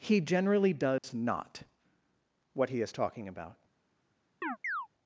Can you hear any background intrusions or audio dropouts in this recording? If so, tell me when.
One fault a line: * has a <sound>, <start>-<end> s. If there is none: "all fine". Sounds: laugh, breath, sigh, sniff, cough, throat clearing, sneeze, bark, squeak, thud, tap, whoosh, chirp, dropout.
* has a dropout, 1.0-1.0 s
* has a chirp, 4.4-4.9 s